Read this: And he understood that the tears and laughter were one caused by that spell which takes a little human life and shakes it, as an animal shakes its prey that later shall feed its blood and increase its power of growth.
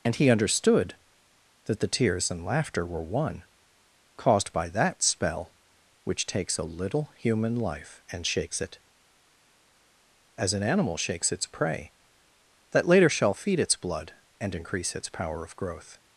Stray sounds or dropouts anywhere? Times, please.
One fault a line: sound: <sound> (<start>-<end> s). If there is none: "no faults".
no faults